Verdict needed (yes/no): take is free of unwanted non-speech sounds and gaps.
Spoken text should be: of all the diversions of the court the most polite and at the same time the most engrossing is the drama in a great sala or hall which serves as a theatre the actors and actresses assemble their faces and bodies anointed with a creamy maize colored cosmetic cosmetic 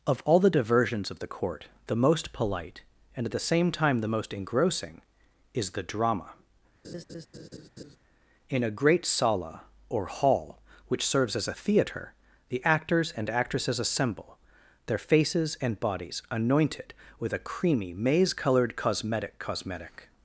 no